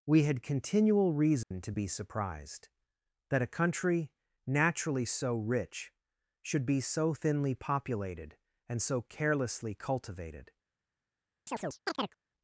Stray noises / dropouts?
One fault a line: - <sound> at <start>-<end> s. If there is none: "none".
- dropout at 1.4-1.5 s
- chirp at 11.5-12.2 s